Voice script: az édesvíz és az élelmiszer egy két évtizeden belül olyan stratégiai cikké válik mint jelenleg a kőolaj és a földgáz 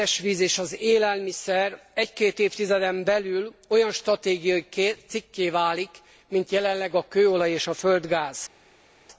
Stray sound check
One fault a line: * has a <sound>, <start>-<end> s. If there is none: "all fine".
all fine